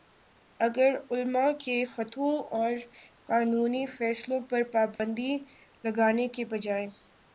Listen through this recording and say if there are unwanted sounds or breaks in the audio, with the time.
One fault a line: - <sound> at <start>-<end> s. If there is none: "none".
- dropout at 5.0-5.0 s